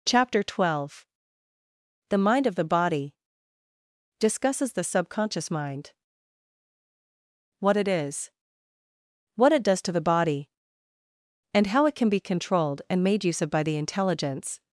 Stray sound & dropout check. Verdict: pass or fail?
pass